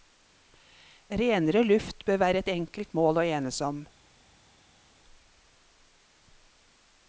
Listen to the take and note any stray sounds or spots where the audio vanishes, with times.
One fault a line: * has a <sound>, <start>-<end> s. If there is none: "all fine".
all fine